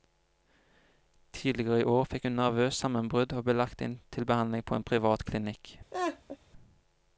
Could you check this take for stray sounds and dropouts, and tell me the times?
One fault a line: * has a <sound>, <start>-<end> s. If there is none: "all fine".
* has a laugh, 5.9-6.4 s